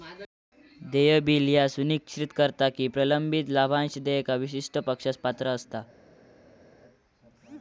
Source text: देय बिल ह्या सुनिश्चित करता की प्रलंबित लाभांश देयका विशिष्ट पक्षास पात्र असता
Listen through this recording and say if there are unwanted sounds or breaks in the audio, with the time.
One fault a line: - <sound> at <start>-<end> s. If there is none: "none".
none